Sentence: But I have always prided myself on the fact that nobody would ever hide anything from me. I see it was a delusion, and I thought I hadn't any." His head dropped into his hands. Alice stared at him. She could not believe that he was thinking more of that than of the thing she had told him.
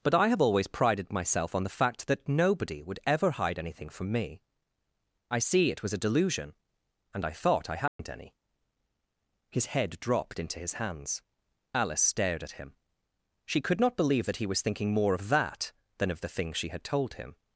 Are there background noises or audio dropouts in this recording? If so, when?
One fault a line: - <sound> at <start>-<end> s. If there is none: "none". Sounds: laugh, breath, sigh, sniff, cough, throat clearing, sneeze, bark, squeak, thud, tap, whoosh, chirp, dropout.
- dropout at 7.9-8.0 s